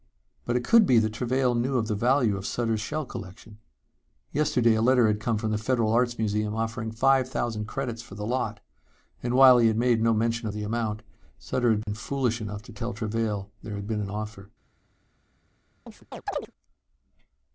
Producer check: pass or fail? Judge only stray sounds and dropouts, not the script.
fail